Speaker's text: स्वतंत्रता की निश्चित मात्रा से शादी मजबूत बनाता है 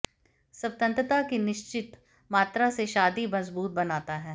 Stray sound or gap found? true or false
false